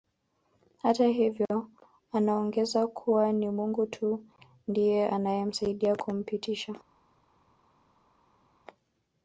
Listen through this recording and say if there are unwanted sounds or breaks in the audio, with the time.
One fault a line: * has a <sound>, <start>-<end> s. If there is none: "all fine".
all fine